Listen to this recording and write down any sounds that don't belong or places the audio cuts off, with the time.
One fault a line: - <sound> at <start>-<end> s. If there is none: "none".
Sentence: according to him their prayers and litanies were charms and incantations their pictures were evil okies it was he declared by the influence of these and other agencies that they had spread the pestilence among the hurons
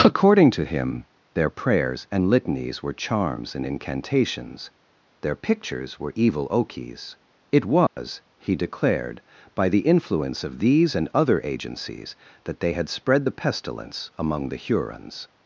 - dropout at 7.9-8.0 s